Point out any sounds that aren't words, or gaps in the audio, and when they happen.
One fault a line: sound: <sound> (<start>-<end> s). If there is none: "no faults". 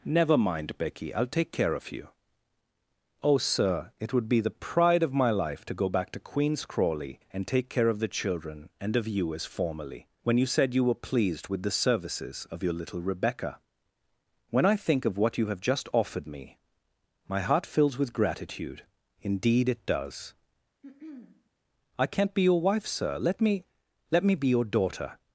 sound: throat clearing (20.8-21.5 s)